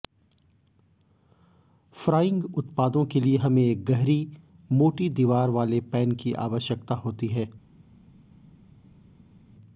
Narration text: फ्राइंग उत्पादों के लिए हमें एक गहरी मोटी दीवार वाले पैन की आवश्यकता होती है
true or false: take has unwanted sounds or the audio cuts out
false